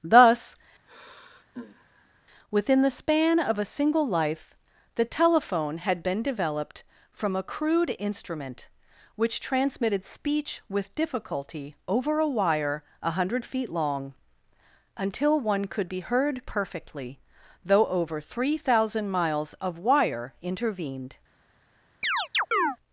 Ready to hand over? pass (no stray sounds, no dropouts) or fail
fail